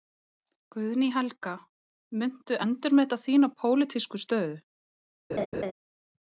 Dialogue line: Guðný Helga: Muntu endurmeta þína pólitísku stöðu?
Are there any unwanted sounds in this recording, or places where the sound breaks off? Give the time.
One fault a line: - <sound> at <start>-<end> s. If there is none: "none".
- laugh at 5.3-5.7 s